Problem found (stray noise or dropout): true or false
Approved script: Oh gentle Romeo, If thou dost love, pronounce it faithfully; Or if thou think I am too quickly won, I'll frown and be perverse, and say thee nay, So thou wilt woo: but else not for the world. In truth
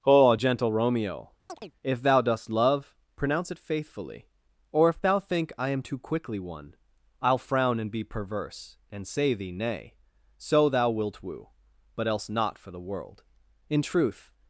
true